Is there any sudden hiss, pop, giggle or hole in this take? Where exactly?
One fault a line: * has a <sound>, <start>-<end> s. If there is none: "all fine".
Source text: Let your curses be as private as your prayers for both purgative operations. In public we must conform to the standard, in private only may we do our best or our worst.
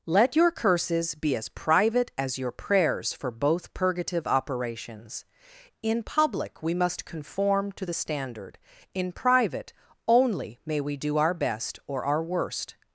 all fine